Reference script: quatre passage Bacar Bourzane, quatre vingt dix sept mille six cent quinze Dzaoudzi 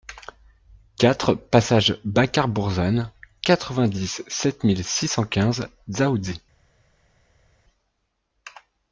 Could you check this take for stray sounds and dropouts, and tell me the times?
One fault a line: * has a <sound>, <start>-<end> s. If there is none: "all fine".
all fine